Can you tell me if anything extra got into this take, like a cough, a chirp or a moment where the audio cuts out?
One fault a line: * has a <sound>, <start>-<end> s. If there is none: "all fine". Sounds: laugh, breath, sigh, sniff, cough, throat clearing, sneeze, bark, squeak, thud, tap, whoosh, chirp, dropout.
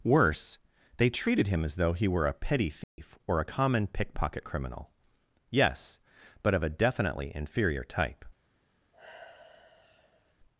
* has a dropout, 2.8-3.0 s
* has a sigh, 8.9-10.3 s